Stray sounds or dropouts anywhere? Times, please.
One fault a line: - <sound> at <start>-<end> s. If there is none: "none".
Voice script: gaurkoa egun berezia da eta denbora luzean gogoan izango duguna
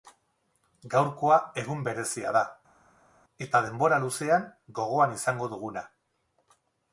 none